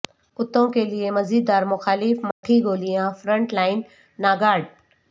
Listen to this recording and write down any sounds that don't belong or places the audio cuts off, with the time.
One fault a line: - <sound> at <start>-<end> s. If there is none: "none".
- dropout at 2.3-2.4 s